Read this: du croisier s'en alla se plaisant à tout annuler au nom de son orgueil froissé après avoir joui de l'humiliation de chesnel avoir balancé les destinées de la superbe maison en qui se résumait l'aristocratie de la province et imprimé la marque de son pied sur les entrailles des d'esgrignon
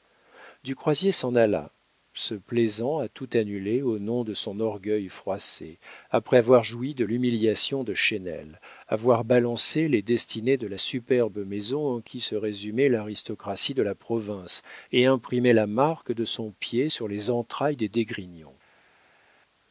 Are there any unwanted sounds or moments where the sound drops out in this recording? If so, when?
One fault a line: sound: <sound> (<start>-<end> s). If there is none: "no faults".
no faults